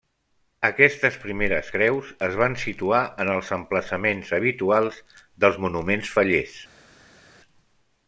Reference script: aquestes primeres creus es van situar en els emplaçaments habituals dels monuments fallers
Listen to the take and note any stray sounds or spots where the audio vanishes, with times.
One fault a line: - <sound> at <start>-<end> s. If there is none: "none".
none